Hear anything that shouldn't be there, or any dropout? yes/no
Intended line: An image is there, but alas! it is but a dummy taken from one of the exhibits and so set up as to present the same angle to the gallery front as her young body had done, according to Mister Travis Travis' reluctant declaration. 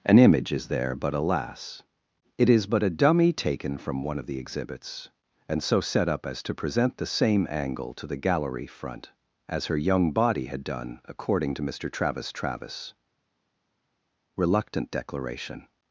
no